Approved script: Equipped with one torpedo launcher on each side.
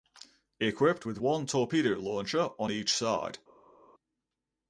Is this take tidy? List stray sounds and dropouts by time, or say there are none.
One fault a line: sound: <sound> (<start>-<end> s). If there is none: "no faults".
no faults